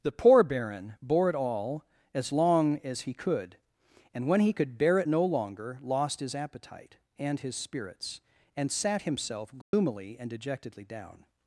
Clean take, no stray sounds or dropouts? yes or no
no